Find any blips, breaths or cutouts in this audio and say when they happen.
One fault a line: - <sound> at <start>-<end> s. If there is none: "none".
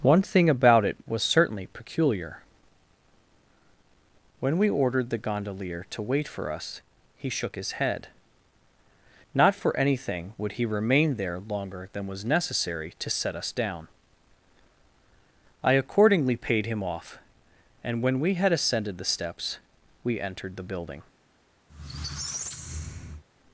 - squeak at 21.7-23.2 s